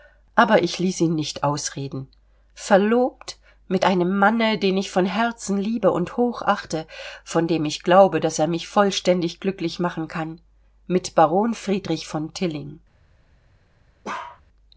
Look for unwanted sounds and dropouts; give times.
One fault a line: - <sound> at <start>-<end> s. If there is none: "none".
- bark at 14.0-14.4 s